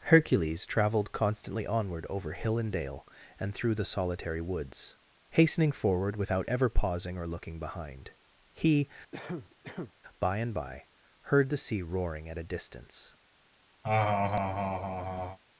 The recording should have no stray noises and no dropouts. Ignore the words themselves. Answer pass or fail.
fail